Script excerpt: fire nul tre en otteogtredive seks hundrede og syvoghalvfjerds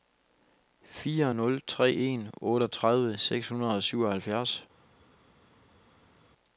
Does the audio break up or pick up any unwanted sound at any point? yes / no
no